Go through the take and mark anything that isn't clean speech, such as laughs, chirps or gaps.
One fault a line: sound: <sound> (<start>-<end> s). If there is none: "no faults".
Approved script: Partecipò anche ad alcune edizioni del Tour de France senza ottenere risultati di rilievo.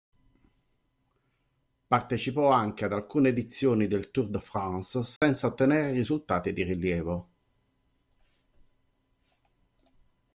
sound: dropout (5.2-5.2 s)